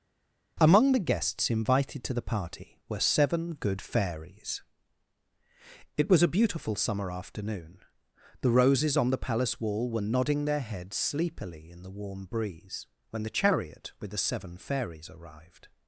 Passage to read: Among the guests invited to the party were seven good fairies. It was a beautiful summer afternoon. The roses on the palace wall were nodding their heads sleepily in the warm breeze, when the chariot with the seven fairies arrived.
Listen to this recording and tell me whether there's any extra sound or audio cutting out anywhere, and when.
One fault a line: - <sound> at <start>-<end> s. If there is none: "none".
none